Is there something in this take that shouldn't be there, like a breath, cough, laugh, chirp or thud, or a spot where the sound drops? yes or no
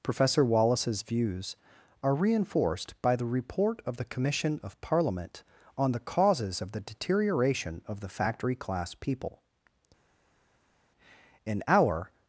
no